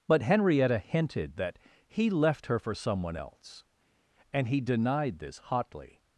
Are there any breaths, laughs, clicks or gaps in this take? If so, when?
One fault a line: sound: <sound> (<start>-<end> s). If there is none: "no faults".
no faults